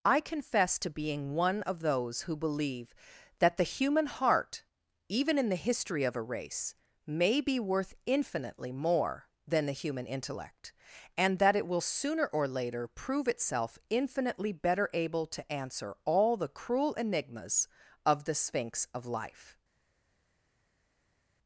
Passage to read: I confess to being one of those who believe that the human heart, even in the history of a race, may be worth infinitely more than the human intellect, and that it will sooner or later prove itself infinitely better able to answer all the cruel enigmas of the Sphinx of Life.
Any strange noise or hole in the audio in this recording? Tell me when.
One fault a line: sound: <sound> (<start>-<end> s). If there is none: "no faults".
no faults